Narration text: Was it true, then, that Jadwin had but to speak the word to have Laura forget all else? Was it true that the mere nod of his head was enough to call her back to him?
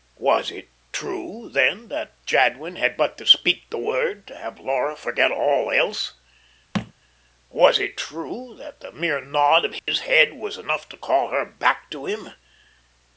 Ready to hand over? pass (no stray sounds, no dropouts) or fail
fail